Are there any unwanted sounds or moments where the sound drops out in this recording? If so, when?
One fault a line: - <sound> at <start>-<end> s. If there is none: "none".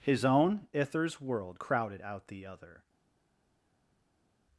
none